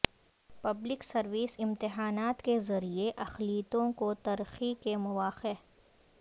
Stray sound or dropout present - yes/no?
no